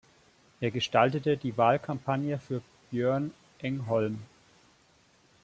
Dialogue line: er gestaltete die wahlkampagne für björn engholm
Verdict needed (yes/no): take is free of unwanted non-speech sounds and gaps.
yes